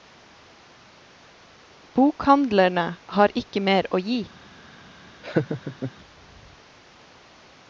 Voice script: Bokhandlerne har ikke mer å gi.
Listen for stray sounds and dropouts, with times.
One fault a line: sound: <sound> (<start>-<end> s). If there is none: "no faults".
sound: laugh (5.2-5.9 s)